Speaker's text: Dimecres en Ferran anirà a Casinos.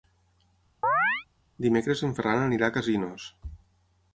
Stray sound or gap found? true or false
true